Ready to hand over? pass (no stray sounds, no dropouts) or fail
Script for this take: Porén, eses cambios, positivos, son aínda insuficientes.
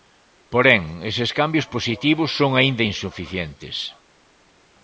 pass